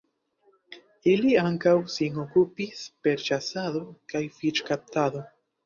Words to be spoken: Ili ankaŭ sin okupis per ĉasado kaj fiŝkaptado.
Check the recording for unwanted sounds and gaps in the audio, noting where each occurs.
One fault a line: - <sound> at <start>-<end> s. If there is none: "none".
none